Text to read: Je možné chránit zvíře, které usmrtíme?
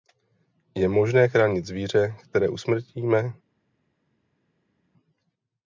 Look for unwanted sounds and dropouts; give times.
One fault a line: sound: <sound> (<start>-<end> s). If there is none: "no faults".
no faults